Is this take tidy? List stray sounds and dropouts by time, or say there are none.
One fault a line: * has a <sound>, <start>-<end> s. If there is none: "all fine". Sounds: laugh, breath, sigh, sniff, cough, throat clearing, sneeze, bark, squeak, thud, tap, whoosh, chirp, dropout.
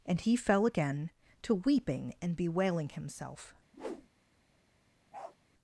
* has a whoosh, 3.7-4.1 s
* has a bark, 5.1-5.4 s